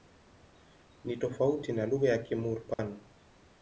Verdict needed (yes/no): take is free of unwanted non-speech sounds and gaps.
no